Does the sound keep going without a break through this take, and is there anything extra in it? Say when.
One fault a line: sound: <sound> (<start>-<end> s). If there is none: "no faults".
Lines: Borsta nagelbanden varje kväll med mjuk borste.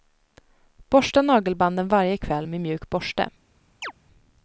sound: chirp (3.8-3.9 s)